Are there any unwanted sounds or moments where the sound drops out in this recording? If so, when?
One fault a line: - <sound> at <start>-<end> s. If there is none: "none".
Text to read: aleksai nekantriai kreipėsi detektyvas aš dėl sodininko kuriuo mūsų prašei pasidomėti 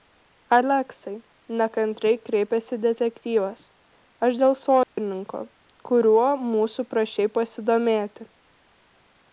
- dropout at 4.8-5.0 s